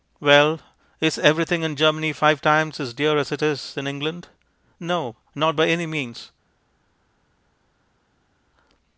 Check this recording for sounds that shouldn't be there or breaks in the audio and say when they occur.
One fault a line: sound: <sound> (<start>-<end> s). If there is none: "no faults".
no faults